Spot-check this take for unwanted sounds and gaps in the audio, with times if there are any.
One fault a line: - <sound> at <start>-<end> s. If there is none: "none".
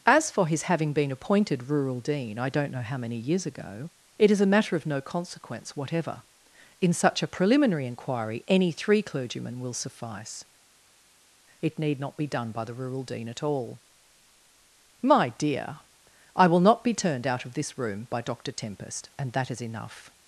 none